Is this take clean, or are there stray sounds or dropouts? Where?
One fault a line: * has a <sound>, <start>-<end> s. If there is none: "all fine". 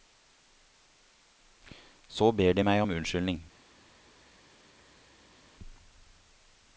all fine